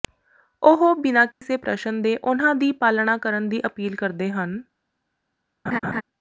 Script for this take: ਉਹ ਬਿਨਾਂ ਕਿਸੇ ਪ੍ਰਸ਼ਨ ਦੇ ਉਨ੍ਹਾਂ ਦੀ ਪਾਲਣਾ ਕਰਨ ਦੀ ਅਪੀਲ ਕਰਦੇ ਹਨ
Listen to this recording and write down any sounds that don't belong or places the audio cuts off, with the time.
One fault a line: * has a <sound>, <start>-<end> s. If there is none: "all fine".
* has a dropout, 1.3-1.4 s
* has a laugh, 5.7-6.0 s